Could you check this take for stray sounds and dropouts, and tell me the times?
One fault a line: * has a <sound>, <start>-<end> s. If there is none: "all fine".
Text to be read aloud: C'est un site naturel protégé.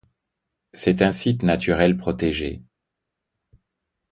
all fine